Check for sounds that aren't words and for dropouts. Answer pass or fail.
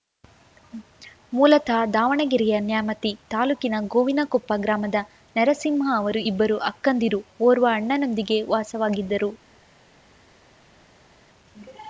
pass